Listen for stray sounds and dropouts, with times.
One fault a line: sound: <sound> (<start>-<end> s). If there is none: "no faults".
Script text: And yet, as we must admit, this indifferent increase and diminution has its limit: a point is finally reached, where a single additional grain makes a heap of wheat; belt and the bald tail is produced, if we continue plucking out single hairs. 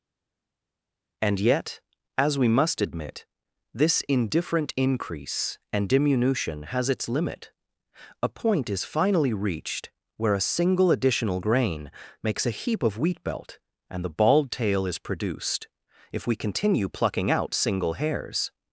no faults